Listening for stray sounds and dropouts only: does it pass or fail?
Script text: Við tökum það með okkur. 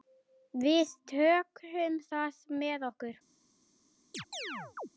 fail